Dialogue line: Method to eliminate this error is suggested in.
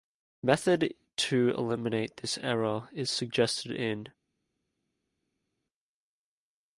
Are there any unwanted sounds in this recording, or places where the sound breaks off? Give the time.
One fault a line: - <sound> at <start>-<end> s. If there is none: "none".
none